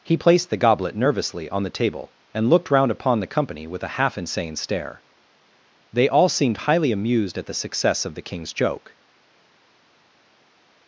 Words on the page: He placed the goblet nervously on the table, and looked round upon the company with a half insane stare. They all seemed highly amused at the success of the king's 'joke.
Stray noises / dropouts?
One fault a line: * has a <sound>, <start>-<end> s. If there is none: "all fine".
all fine